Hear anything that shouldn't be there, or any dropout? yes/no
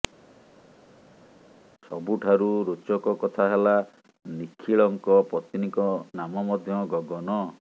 no